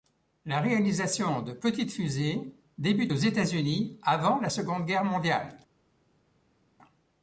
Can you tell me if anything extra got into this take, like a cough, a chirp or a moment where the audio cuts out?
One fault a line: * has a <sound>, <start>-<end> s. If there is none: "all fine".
all fine